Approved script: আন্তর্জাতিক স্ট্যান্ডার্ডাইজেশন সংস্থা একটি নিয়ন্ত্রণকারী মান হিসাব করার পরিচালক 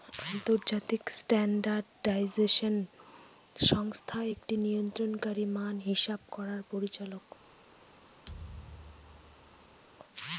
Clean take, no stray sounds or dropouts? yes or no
no